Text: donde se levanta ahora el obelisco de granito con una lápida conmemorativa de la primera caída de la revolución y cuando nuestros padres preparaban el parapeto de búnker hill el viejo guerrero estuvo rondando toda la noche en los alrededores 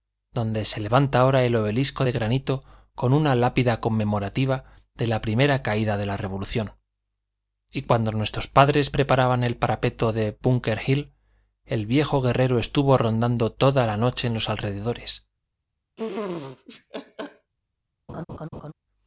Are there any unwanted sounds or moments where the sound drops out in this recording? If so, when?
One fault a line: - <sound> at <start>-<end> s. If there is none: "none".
- laugh at 16.0-17.5 s
- laugh at 18.1-18.7 s